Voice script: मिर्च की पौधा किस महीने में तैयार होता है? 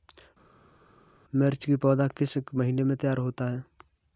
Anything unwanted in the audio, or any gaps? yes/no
no